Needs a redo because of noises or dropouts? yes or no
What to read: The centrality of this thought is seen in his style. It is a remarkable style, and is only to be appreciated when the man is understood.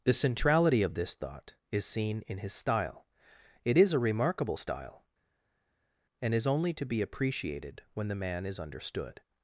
no